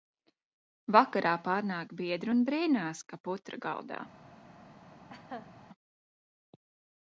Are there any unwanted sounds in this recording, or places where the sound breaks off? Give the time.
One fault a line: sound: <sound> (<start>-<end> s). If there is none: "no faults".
sound: laugh (5.1-5.5 s)